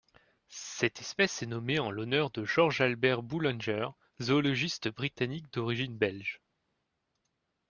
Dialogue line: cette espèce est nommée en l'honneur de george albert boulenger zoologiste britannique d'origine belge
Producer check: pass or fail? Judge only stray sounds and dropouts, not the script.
pass